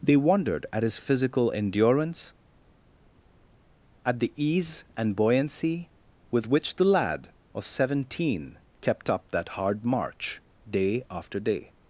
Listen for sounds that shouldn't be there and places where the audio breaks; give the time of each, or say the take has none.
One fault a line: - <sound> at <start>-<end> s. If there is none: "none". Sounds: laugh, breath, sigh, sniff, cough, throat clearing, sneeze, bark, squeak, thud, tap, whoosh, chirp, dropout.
none